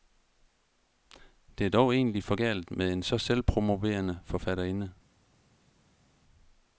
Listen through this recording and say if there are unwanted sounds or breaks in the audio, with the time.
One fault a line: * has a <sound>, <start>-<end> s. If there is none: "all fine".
all fine